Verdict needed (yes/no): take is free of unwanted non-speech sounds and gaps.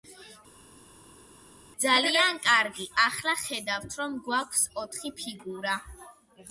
yes